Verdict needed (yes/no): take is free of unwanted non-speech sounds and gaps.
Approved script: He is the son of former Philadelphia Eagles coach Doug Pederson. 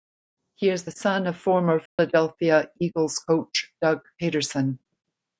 no